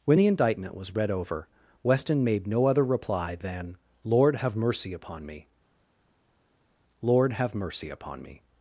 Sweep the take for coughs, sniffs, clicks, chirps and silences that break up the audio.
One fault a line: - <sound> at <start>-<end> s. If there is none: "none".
none